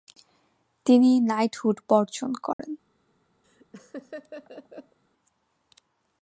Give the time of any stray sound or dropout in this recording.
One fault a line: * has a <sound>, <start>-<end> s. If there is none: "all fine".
* has a dropout, 2.5-2.6 s
* has a laugh, 3.4-5.0 s